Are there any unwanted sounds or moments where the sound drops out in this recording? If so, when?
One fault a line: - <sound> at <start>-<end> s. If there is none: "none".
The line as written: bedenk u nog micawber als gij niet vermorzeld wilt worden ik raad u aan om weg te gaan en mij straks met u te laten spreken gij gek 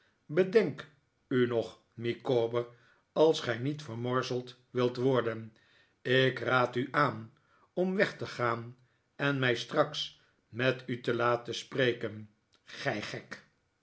none